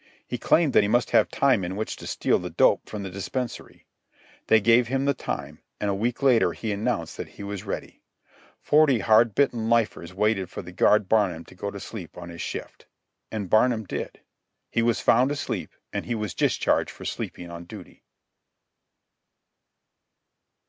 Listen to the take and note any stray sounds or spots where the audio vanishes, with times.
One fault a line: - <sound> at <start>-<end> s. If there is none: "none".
none